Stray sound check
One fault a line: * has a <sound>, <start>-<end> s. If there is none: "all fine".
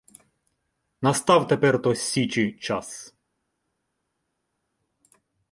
all fine